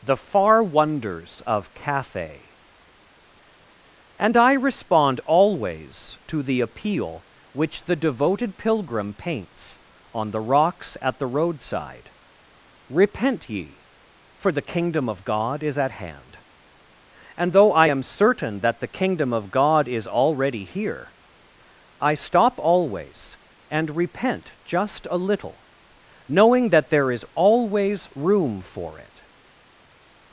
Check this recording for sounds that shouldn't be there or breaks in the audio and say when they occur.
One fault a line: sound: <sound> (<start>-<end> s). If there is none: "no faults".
no faults